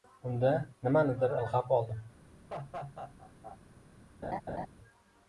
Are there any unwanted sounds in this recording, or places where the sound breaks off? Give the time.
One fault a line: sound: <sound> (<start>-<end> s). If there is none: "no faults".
sound: laugh (2.5-3.6 s)
sound: laugh (4.2-4.7 s)